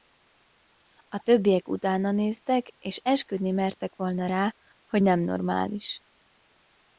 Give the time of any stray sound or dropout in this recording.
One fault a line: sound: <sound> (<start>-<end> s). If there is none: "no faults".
no faults